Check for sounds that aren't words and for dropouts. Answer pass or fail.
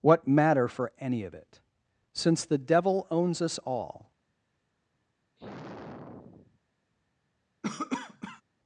fail